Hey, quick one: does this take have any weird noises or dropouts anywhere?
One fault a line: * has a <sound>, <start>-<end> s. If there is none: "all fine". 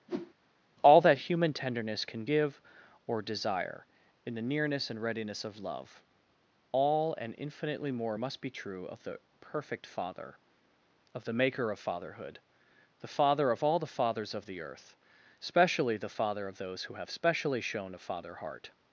* has a whoosh, 0.1-0.3 s